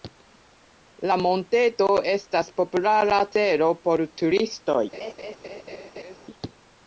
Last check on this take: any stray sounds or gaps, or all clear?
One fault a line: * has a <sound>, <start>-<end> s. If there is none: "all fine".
* has a laugh, 4.9-6.2 s